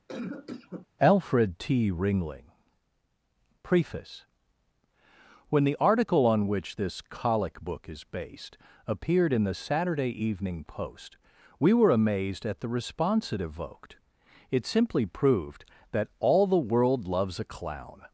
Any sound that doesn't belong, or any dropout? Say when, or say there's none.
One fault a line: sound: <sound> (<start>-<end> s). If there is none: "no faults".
sound: cough (0.1-0.9 s)